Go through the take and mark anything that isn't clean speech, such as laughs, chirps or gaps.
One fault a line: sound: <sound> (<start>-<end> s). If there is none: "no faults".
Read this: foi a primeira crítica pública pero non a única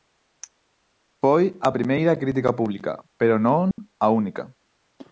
sound: dropout (3.7-3.8 s)